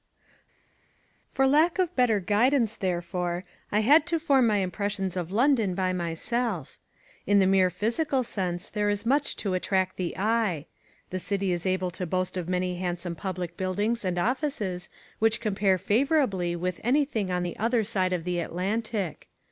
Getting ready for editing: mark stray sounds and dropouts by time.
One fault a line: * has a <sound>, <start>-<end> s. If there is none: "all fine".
all fine